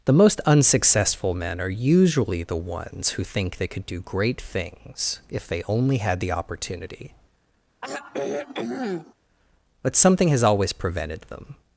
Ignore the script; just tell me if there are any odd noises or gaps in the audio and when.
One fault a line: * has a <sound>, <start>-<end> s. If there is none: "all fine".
* has a sigh, 7.8-9.1 s